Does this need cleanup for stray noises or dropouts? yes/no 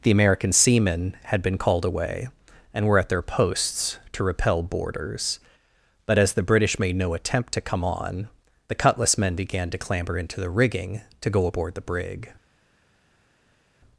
no